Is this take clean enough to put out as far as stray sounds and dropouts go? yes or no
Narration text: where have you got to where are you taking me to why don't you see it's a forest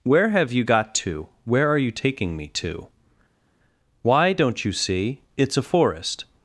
yes